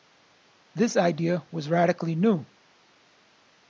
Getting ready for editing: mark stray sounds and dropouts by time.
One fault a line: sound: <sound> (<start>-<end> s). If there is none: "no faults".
no faults